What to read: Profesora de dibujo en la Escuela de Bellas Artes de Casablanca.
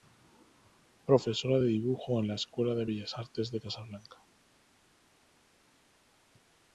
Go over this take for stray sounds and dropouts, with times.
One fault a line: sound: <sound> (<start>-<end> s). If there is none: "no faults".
no faults